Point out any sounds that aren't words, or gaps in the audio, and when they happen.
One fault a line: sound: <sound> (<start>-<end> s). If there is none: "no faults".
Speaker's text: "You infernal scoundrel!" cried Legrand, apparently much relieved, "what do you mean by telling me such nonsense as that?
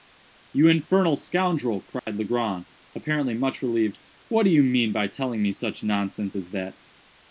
sound: dropout (2.0-2.1 s)